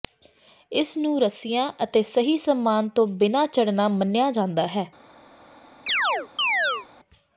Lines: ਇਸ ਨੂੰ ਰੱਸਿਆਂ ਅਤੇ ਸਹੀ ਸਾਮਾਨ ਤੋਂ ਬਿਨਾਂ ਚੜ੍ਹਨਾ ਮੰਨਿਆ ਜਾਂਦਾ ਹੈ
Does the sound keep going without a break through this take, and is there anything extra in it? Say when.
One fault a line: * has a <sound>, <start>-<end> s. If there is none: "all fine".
* has a chirp, 5.9-6.9 s